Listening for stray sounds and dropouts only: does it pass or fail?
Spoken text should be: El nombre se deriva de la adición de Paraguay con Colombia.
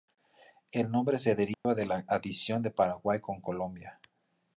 fail